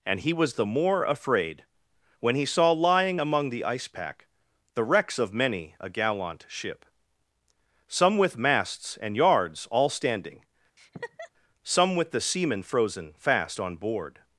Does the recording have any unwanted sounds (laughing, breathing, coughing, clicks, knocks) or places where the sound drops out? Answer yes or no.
yes